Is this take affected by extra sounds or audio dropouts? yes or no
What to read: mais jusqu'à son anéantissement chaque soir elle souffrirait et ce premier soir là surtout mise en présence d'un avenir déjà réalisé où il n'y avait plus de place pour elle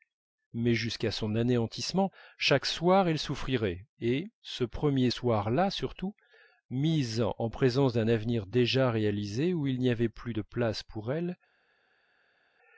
no